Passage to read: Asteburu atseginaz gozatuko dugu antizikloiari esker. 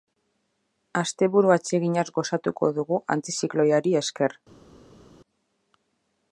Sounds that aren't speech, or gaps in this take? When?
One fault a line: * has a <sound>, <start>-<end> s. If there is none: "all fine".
all fine